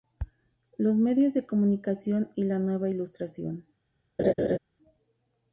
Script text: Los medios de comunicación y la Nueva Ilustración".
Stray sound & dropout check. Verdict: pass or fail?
fail